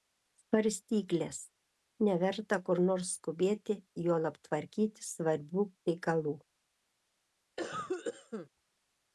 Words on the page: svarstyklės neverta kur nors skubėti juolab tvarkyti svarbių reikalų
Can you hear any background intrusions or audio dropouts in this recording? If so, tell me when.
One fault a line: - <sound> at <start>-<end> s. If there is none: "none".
- cough at 7.6-8.5 s